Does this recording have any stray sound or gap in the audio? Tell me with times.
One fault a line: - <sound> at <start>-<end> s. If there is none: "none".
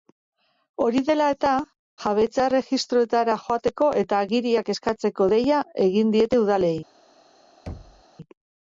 - thud at 7.7-8.0 s